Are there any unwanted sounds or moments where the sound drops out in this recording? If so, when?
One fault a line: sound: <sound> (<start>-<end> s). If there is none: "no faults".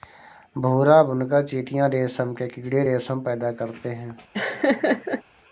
sound: laugh (4.3-5.2 s)